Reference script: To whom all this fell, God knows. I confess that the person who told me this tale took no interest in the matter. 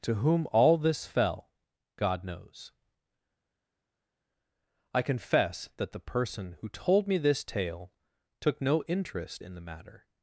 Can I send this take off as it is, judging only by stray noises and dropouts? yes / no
yes